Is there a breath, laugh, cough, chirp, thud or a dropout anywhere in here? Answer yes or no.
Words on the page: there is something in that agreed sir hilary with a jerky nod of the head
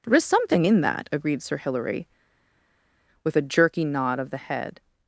no